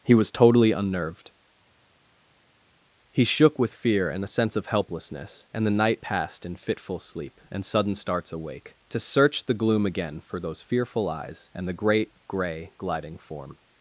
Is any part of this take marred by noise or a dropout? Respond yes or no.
no